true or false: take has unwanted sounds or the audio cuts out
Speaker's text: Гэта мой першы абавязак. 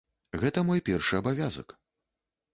false